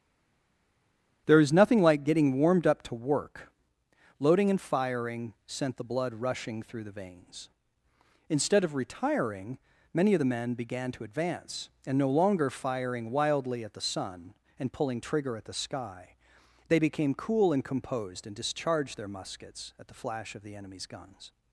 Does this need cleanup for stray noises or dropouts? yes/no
no